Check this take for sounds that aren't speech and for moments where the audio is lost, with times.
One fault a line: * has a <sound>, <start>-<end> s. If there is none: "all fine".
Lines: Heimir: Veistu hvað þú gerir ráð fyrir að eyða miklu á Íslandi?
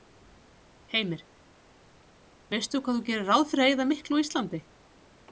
all fine